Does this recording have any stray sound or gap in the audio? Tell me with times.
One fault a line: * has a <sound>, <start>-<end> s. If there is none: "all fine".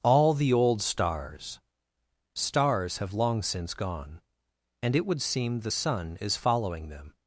all fine